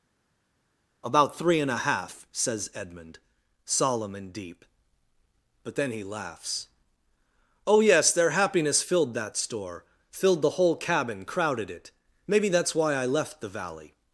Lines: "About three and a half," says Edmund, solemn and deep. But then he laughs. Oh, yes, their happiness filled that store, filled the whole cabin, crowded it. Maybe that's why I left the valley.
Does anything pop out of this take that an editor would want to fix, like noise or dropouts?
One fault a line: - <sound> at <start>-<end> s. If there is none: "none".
none